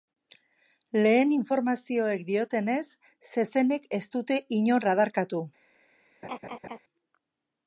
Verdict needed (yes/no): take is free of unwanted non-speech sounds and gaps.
no